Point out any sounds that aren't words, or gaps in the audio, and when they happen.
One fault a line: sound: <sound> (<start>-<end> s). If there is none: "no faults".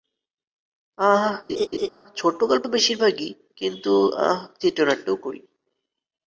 sound: laugh (1.5-1.9 s)